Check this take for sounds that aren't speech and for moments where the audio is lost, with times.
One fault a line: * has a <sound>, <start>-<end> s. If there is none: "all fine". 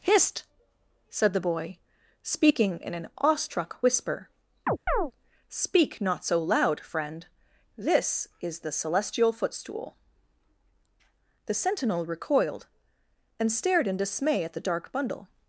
* has a chirp, 4.7-5.1 s